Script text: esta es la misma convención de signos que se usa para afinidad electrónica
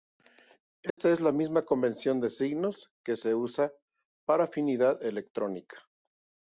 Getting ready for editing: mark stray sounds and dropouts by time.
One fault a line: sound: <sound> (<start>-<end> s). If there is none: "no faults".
sound: dropout (0.9-1.0 s)